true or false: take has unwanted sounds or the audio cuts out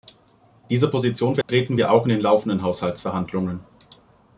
true